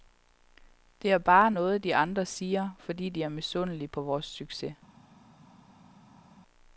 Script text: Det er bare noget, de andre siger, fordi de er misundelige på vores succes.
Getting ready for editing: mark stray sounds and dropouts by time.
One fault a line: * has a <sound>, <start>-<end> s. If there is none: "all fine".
all fine